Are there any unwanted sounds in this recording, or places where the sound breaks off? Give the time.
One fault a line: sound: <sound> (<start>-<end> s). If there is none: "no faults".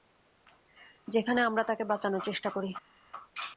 no faults